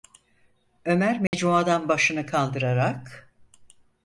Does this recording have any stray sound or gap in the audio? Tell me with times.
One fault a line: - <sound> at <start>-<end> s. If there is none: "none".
- dropout at 1.3-1.3 s